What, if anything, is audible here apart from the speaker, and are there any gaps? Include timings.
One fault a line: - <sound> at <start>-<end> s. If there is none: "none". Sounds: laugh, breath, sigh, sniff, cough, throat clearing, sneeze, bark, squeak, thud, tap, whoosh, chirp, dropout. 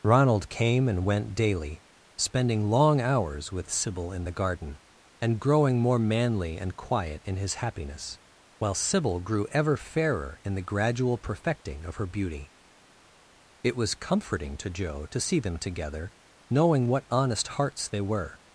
none